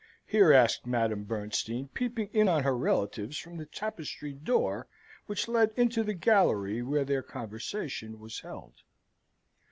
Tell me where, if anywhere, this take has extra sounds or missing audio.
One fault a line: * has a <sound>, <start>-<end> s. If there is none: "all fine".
all fine